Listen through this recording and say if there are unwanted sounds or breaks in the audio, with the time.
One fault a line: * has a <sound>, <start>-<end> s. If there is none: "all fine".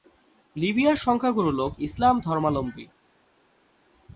all fine